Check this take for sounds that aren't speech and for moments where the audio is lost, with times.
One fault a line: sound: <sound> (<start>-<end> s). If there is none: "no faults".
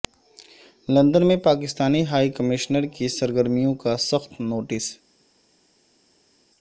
no faults